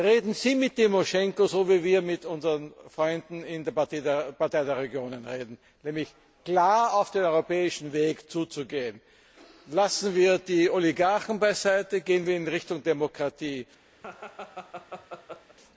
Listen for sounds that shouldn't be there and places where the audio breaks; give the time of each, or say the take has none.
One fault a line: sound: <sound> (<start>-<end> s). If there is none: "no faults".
sound: laugh (14.0-15.6 s)